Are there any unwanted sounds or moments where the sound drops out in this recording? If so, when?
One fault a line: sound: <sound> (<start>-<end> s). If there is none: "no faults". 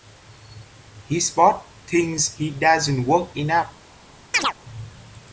sound: chirp (4.3-4.5 s)